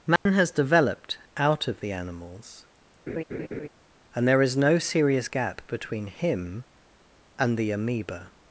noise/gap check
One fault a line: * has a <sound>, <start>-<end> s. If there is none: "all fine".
* has a dropout, 0.2-0.3 s
* has a laugh, 3.1-3.7 s